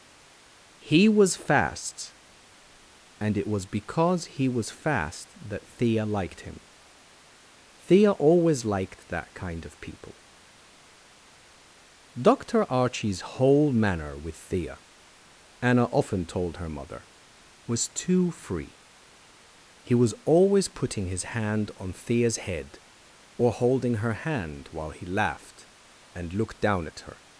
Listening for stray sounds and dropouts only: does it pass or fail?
pass